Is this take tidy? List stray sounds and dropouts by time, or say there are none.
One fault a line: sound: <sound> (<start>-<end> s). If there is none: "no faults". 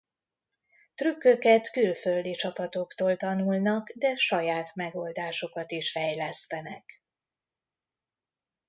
no faults